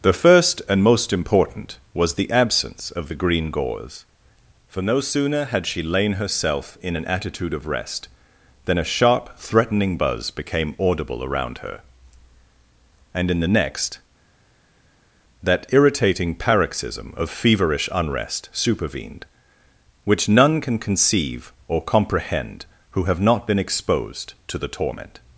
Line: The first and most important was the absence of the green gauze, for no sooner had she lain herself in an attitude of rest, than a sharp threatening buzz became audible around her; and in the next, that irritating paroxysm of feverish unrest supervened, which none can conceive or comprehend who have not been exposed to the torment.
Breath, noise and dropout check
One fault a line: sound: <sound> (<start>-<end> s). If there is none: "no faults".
no faults